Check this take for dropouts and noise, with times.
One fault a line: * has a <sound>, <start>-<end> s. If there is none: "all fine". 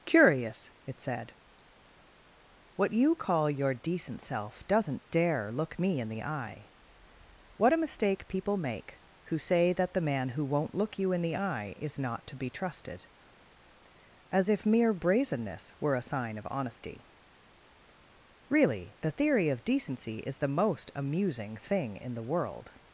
all fine